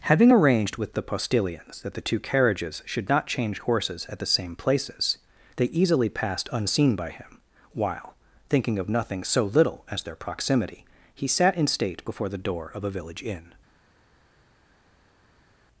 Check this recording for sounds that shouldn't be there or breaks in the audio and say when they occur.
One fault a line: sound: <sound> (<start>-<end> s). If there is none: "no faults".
no faults